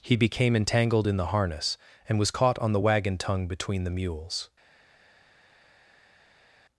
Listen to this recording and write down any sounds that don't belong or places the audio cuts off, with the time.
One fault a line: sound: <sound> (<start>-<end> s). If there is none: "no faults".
no faults